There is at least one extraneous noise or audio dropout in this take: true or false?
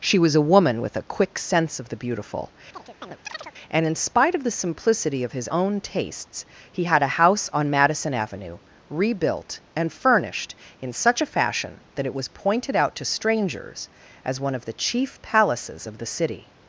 true